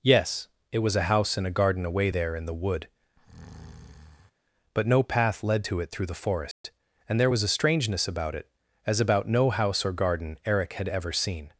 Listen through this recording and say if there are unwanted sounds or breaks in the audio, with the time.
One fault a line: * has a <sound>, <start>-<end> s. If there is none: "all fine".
* has a breath, 3.2-4.3 s
* has a dropout, 6.5-6.6 s